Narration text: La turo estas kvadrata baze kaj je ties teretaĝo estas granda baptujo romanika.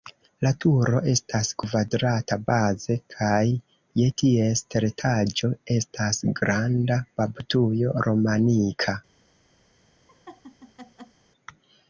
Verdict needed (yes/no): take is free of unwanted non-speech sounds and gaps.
no